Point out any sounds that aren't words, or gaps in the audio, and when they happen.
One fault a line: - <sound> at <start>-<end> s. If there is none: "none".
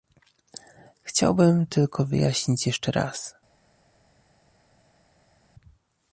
none